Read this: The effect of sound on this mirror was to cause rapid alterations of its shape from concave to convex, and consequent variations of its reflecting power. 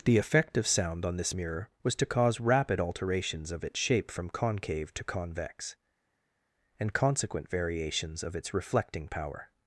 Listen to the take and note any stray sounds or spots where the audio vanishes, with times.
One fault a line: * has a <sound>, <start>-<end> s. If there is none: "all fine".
all fine